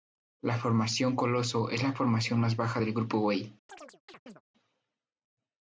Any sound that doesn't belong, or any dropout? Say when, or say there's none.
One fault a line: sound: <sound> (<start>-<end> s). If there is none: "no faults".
sound: chirp (3.7-4.4 s)